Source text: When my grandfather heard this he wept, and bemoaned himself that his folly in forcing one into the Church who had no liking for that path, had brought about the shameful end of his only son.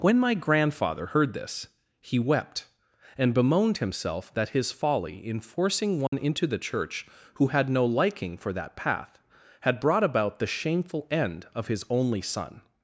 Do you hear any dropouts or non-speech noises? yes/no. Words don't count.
yes